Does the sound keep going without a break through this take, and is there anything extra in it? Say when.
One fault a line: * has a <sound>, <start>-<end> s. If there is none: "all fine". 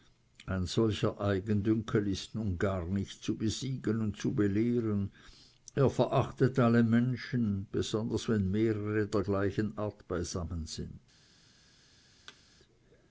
* has a thud, 12.3-12.4 s